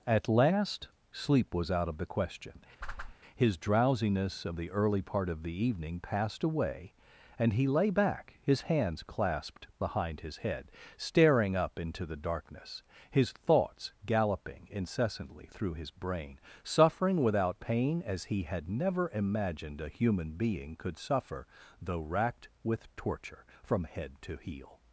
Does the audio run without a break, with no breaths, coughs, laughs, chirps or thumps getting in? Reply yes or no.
no